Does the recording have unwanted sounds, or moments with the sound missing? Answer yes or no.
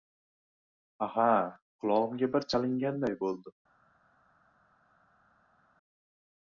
no